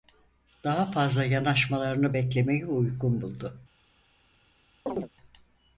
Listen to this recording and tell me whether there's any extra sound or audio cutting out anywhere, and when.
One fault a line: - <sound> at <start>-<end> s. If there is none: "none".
- chirp at 4.9-5.1 s